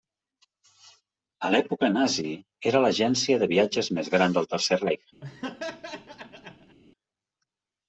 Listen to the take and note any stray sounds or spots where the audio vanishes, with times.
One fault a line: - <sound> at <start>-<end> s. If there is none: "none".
- laugh at 5.2-6.8 s